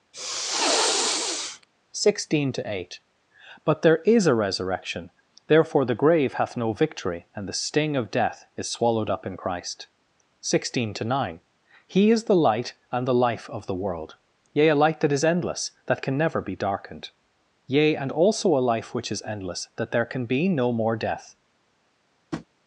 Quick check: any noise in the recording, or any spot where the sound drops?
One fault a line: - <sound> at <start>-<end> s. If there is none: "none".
- sniff at 0.1-1.7 s
- tap at 22.3-22.5 s